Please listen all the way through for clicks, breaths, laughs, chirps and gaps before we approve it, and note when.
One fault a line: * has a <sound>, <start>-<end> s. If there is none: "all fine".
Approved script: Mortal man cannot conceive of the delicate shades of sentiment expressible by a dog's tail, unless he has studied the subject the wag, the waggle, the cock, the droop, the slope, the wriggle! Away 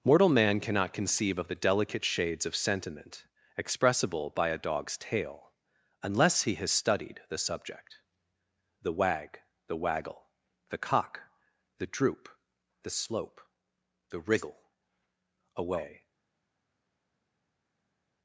all fine